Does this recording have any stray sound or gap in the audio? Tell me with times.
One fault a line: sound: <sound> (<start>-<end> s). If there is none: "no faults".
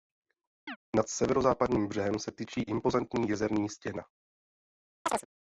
sound: chirp (0.7-0.8 s)
sound: chirp (5.1-5.3 s)